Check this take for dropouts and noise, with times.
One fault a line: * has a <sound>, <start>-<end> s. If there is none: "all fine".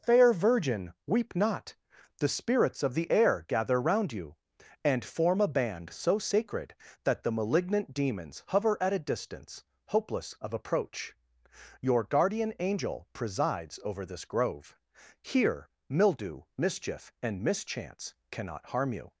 all fine